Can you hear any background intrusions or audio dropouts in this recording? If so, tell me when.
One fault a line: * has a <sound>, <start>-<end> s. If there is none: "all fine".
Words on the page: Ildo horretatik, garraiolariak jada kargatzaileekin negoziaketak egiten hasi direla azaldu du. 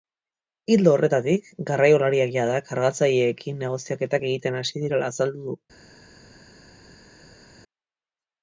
all fine